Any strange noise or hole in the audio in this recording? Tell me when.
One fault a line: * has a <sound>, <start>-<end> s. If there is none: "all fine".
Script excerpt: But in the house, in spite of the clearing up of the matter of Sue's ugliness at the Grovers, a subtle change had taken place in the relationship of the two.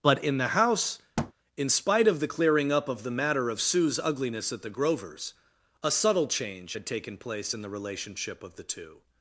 * has a thud, 1.2-1.3 s